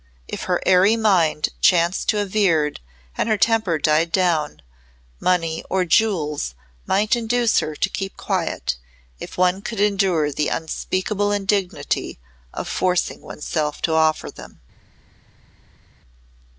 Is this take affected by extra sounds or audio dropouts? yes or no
no